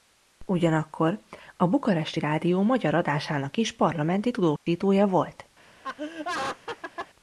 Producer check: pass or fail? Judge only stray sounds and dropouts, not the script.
fail